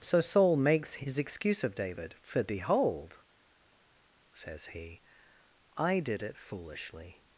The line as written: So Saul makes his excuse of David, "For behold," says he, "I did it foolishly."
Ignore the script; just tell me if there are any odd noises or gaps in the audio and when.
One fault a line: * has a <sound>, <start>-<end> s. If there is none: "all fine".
all fine